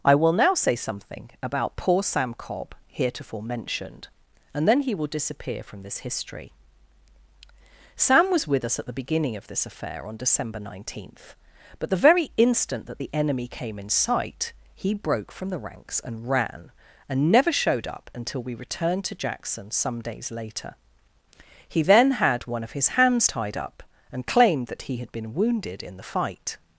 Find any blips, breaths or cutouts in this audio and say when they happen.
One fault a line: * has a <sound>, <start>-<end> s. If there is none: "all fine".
all fine